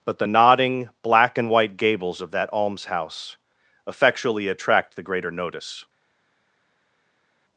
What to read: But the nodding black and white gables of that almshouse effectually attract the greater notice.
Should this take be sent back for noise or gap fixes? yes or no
no